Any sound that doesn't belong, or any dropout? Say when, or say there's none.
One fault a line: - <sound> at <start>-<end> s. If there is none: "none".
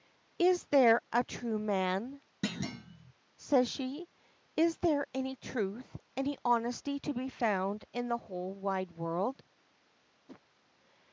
- thud at 2.4-3.1 s
- whoosh at 10.3-10.4 s